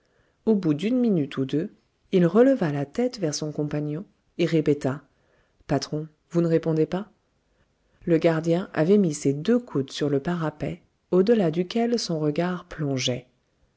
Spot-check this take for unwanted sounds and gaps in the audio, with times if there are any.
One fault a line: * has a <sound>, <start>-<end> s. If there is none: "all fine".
all fine